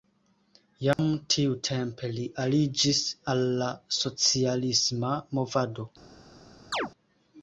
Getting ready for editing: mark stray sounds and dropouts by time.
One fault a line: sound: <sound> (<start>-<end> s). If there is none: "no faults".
sound: dropout (0.9-1.0 s)
sound: chirp (6.7-6.9 s)